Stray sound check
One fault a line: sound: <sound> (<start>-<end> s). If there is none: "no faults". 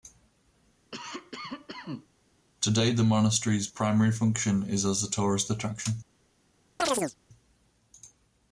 sound: cough (0.9-2.1 s)
sound: chirp (6.8-7.1 s)